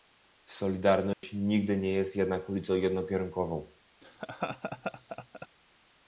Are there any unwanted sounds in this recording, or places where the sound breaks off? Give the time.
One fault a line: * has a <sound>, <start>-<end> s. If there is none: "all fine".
* has a dropout, 1.1-1.2 s
* has a laugh, 4.0-5.5 s